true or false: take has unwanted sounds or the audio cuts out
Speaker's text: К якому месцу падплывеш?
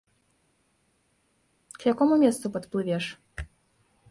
false